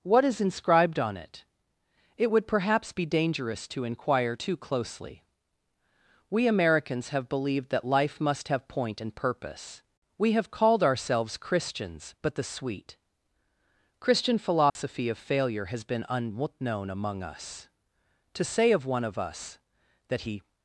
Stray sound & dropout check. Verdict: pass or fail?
fail